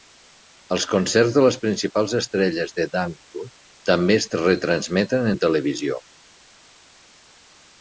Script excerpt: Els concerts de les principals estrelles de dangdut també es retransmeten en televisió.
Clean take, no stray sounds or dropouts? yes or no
yes